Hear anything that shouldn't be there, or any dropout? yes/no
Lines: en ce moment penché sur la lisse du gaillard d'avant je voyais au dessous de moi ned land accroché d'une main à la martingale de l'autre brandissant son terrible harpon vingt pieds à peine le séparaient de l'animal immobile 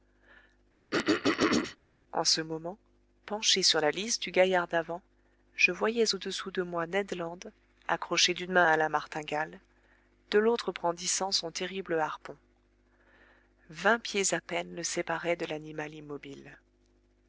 yes